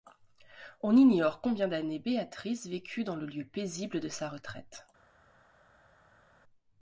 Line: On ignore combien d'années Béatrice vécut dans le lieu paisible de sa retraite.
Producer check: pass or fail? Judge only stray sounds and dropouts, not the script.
pass